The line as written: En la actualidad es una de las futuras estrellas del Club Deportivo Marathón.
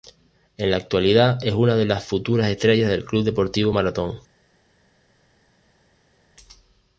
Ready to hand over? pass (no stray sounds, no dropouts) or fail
pass